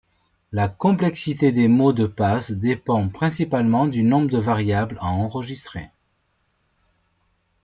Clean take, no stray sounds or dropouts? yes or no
yes